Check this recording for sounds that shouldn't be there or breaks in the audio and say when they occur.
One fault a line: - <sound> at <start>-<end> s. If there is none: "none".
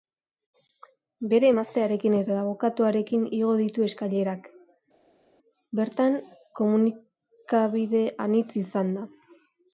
none